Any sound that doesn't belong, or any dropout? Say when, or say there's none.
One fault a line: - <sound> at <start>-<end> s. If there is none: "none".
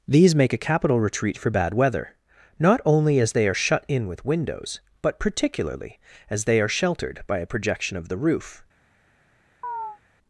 - chirp at 9.6-10.0 s